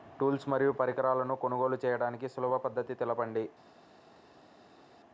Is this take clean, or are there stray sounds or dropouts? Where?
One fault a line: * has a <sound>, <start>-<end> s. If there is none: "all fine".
all fine